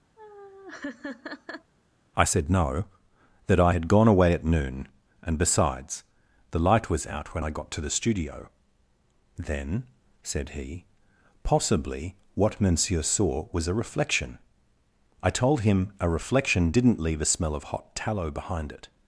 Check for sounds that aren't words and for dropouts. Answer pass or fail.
fail